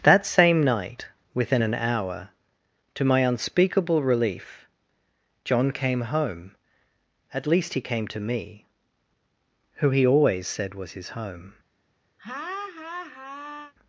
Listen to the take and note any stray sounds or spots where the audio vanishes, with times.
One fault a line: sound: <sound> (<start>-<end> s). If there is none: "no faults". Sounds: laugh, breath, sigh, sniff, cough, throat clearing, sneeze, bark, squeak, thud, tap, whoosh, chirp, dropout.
sound: laugh (12.2-13.7 s)